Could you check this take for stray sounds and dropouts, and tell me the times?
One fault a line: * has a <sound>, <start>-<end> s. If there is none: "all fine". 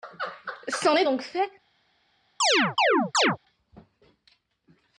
* has a chirp, 2.4-3.4 s